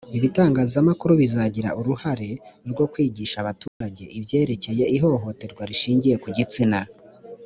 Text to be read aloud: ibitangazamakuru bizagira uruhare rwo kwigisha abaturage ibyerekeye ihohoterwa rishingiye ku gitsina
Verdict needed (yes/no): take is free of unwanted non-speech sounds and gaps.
no